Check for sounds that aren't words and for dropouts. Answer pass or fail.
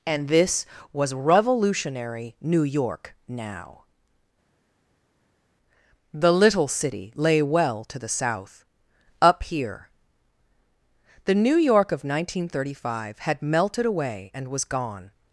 pass